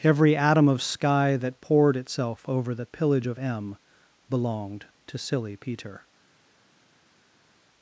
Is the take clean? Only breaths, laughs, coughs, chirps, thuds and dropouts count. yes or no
yes